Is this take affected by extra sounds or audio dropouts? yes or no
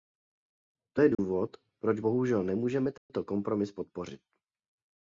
yes